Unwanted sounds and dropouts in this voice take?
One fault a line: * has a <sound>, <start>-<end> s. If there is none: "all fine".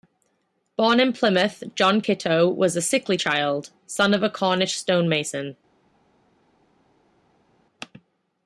all fine